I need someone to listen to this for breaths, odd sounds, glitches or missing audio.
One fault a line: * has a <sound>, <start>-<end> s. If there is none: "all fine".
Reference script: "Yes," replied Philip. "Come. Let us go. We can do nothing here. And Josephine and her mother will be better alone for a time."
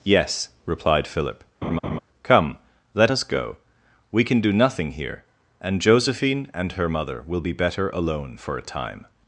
* has a laugh, 1.6-2.0 s